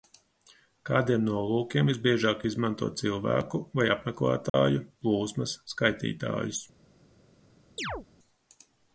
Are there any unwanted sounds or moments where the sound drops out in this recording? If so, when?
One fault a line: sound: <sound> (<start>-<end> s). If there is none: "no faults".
sound: dropout (4.5-4.5 s)
sound: chirp (7.8-8.1 s)